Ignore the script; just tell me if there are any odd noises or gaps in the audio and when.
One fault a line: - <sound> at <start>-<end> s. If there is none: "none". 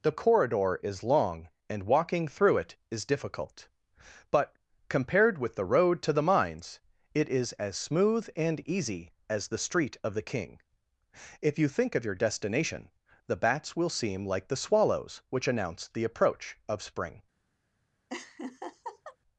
- laugh at 18.1-19.2 s